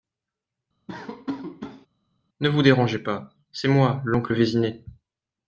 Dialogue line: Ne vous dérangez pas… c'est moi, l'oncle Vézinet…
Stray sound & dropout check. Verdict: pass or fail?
fail